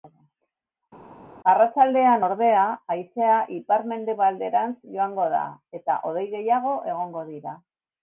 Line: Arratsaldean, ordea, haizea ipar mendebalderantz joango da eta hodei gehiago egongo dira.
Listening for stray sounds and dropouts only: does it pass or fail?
pass